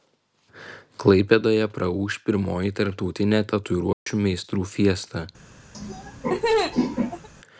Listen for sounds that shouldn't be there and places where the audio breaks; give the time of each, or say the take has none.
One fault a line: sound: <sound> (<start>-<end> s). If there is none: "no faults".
sound: dropout (3.9-4.1 s)
sound: laugh (5.7-7.3 s)